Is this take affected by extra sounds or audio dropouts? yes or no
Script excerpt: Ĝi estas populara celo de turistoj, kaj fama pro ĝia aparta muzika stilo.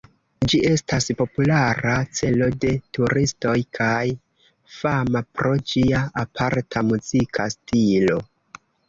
no